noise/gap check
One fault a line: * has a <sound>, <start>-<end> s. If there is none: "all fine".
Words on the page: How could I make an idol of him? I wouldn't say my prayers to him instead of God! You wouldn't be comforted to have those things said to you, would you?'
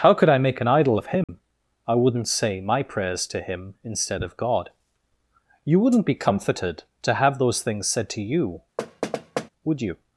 * has a dropout, 1.2-1.3 s
* has a thud, 8.8-9.5 s